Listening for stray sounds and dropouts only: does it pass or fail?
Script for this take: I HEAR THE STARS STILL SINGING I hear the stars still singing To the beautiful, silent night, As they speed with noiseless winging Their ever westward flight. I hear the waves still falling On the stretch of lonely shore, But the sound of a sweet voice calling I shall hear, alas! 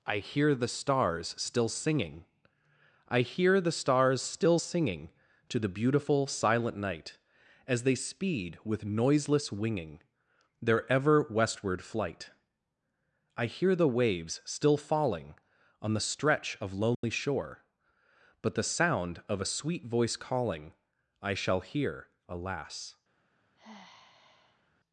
fail